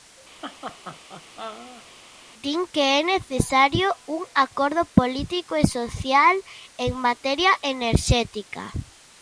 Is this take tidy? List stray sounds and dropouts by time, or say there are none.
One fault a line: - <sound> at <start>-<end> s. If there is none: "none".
- laugh at 0.4-1.8 s